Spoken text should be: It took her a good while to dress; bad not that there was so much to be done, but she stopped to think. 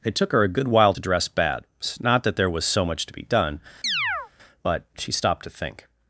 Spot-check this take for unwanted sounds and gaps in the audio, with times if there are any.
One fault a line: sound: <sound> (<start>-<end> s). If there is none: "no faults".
sound: chirp (3.8-4.3 s)